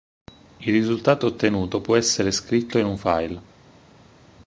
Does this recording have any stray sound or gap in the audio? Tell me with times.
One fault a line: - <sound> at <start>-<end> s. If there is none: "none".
none